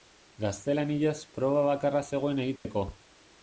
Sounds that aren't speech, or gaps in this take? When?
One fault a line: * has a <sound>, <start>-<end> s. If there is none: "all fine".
* has a dropout, 2.6-2.6 s